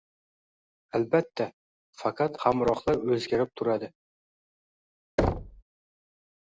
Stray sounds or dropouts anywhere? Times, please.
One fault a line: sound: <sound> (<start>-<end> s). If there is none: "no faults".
sound: thud (5.2-5.6 s)